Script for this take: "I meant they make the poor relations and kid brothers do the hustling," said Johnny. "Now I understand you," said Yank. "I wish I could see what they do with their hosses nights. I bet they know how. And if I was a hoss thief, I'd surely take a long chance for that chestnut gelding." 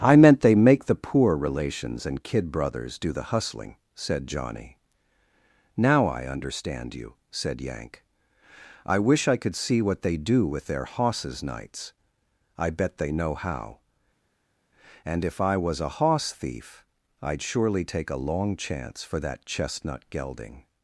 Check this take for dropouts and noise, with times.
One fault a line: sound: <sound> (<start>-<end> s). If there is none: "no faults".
no faults